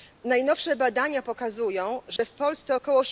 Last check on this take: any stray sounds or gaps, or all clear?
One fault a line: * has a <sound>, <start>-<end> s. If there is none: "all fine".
* has a dropout, 2.2-2.2 s